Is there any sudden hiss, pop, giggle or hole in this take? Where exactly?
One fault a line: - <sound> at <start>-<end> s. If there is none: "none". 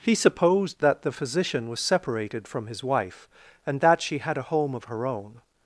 none